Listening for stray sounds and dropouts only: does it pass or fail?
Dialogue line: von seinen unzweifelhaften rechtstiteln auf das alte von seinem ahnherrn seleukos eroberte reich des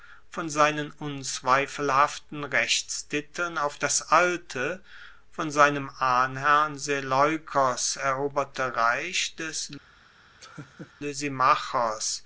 fail